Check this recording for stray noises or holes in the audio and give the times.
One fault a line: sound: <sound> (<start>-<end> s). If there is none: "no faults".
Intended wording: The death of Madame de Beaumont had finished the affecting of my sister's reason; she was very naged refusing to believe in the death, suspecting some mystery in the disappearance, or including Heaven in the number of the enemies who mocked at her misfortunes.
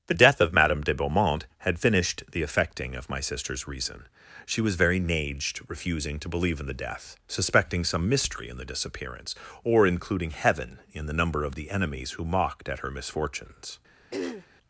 sound: throat clearing (14.1-14.5 s)